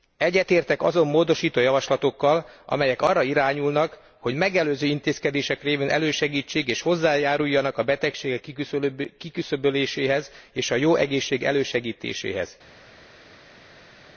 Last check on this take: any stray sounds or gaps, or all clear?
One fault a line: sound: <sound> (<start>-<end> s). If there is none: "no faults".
no faults